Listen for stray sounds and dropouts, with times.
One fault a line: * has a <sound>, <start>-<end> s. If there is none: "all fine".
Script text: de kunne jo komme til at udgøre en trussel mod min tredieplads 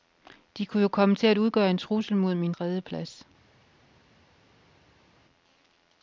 all fine